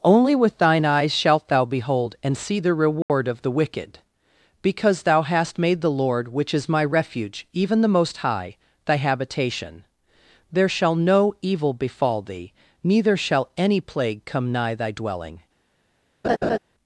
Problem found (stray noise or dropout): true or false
true